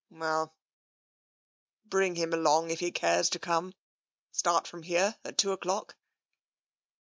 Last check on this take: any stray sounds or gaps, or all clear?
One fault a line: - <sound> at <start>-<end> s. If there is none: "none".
none